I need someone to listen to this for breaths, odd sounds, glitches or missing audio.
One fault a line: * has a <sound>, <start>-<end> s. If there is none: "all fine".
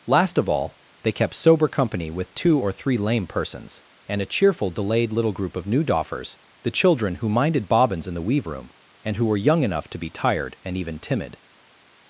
all fine